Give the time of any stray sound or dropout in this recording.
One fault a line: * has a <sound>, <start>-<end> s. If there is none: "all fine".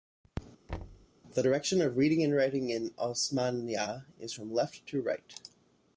* has a thud, 0.7-1.1 s